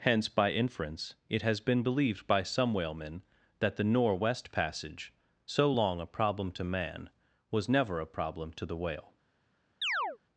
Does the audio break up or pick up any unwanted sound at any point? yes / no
yes